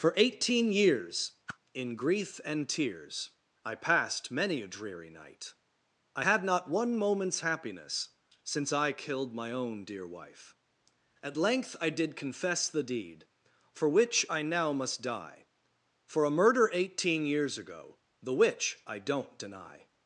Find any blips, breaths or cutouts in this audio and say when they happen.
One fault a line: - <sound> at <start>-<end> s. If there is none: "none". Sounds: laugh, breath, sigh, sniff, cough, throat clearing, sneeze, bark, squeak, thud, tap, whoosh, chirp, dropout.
- whoosh at 1.5-1.6 s